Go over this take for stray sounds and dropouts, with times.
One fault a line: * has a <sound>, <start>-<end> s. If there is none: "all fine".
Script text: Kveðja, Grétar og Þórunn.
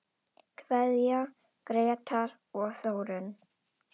all fine